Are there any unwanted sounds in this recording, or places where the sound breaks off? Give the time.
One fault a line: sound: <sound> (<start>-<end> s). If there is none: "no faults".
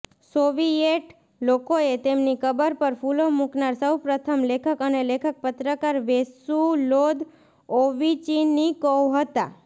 no faults